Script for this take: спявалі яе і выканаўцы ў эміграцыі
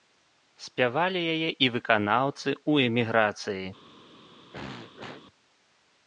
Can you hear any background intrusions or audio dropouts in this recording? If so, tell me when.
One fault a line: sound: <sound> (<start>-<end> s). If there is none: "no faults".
sound: throat clearing (4.5-5.2 s)